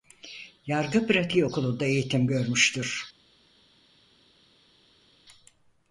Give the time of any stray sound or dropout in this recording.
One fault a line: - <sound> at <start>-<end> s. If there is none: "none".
none